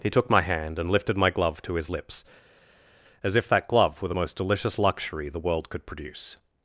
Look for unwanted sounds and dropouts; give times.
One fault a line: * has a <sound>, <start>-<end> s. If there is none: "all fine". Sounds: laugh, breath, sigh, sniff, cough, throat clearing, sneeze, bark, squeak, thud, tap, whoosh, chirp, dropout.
all fine